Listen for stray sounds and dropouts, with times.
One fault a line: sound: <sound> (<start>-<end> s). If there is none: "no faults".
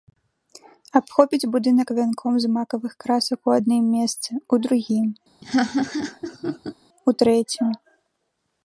sound: laugh (5.4-6.7 s)